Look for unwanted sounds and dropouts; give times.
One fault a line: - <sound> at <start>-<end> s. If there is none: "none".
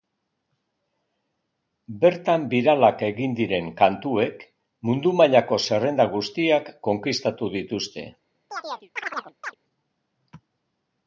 - chirp at 8.5-9.5 s